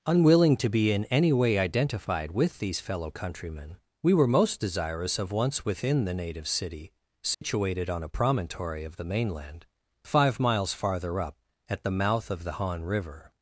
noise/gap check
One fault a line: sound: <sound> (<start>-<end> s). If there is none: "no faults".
sound: dropout (7.3-7.4 s)